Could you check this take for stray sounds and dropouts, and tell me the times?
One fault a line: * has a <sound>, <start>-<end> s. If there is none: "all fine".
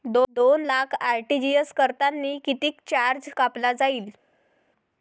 all fine